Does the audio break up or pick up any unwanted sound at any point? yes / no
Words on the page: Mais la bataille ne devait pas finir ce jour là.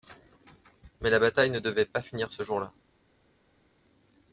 no